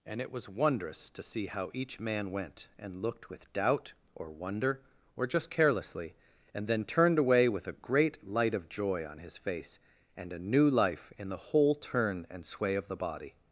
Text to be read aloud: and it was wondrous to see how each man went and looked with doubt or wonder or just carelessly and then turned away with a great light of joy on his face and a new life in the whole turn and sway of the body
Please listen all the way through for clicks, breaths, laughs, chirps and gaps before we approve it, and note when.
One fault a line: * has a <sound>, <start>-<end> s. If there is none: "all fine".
all fine